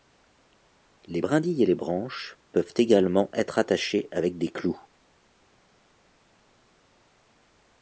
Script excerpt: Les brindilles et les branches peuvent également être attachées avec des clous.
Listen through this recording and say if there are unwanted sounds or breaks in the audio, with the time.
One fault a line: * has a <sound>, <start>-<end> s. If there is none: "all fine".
all fine